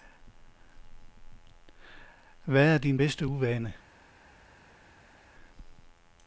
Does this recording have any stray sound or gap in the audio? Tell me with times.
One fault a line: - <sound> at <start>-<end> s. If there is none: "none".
none